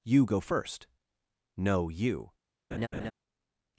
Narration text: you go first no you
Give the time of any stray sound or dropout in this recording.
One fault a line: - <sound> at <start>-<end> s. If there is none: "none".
- laugh at 2.7-3.1 s